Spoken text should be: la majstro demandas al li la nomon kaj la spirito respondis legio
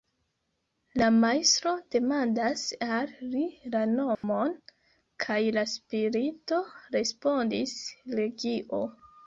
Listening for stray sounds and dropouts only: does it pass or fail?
fail